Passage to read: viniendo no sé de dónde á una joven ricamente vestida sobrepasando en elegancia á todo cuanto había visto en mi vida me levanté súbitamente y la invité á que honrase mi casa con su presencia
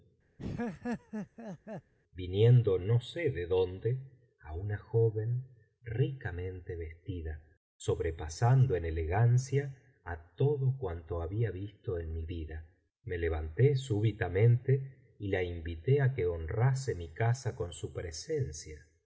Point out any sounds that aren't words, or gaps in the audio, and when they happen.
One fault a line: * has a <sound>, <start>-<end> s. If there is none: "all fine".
* has a laugh, 0.4-1.9 s